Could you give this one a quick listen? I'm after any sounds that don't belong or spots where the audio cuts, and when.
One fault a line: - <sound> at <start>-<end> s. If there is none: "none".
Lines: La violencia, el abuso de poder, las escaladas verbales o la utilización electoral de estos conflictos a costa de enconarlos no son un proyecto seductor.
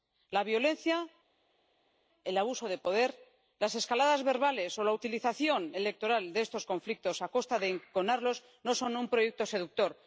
none